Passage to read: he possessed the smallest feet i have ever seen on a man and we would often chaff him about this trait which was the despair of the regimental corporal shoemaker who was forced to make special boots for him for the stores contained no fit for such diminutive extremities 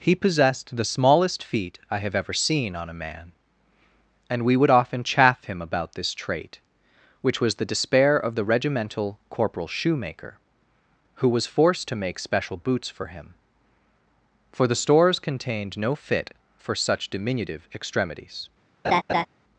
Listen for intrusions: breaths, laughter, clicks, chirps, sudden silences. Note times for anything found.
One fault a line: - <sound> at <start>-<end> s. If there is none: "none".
- laugh at 18.8-19.3 s